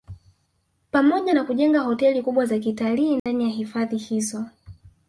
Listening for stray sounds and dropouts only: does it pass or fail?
fail